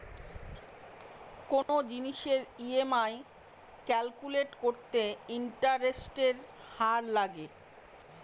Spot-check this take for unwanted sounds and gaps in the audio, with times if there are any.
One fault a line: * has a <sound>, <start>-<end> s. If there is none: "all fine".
* has a dropout, 1.6-1.7 s